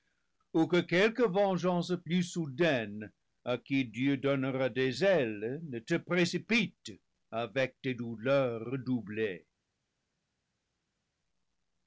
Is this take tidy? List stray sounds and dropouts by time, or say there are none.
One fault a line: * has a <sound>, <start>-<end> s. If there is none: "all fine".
all fine